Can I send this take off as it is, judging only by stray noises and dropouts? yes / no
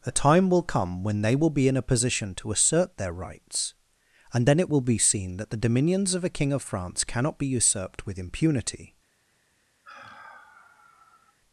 no